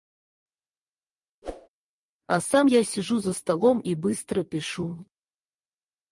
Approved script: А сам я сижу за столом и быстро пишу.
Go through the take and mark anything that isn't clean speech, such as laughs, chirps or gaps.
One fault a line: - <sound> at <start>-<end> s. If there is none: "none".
- whoosh at 1.4-1.7 s